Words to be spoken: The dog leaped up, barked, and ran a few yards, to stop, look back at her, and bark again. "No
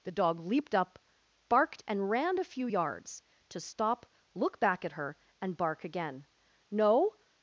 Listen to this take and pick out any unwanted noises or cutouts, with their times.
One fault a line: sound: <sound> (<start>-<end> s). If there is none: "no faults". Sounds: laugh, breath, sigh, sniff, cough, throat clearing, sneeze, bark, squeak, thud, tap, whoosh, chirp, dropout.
no faults